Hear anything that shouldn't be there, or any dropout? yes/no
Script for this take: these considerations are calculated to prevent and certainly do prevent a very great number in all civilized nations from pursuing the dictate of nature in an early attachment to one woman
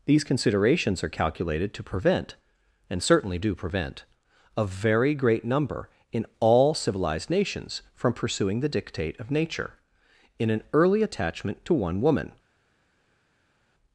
no